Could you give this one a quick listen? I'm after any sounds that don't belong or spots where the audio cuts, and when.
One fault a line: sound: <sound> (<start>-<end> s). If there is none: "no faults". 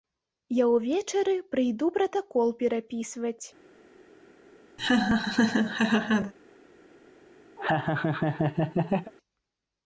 sound: laugh (4.8-6.3 s)
sound: laugh (7.6-9.1 s)